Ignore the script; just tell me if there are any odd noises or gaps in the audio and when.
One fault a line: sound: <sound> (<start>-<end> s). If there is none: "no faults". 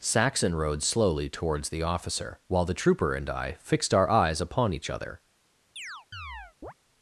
sound: chirp (5.8-6.7 s)